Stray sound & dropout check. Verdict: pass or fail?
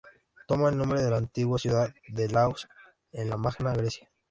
pass